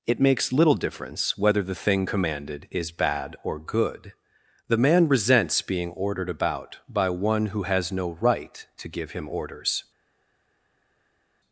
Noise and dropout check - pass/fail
pass